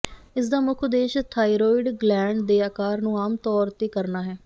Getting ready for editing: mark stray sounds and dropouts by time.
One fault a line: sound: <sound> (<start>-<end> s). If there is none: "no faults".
no faults